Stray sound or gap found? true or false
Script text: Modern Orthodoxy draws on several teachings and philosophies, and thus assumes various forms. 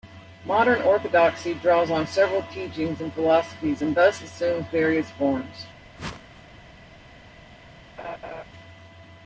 true